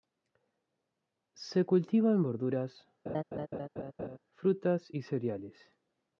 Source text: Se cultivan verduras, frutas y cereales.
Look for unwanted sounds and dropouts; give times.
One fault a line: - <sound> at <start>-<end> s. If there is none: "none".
- laugh at 3.1-4.2 s